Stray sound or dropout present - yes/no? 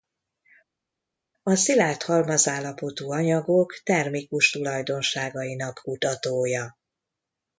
no